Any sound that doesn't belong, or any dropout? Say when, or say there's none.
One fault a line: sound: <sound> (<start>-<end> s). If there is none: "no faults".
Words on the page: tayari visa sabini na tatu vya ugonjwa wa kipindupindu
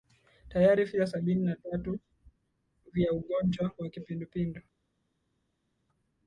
no faults